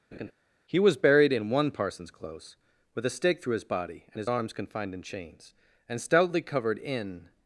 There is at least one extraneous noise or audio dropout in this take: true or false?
true